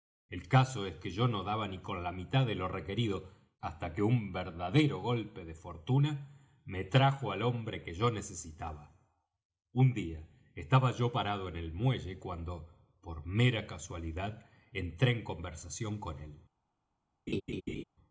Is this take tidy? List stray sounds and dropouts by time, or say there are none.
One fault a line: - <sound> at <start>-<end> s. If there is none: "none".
- laugh at 17.3-17.8 s